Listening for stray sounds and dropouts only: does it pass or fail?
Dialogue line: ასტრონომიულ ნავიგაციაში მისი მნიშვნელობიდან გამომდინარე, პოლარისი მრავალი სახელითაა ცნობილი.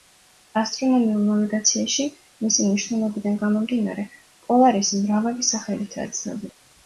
pass